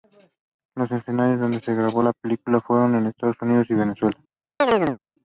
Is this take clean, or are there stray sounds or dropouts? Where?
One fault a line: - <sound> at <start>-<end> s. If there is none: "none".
- chirp at 4.6-5.0 s